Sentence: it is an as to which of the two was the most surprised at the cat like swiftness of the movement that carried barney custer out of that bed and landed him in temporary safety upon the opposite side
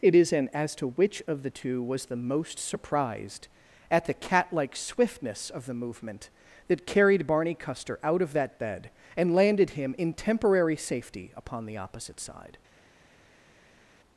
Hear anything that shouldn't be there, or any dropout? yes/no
no